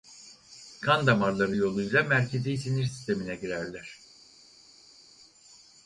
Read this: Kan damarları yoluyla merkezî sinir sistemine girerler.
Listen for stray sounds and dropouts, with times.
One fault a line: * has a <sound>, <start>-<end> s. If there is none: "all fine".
all fine